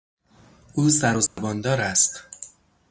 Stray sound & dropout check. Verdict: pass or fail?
fail